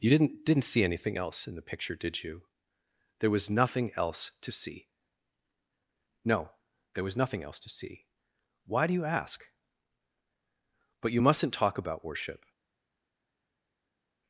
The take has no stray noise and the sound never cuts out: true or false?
true